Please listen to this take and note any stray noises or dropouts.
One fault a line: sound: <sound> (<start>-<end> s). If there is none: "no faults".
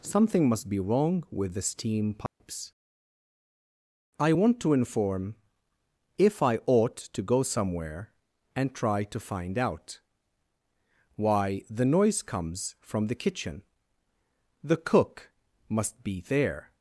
sound: dropout (2.3-2.4 s)